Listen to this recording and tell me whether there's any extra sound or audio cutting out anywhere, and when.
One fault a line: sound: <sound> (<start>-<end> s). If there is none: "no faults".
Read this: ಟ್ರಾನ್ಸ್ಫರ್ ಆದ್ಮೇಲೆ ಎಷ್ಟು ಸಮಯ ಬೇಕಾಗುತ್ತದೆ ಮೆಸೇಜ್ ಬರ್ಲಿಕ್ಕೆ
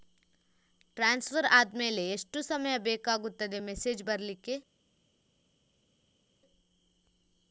no faults